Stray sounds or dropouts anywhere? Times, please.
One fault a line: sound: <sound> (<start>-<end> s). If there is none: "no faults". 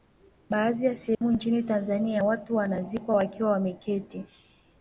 sound: dropout (1.1-1.2 s)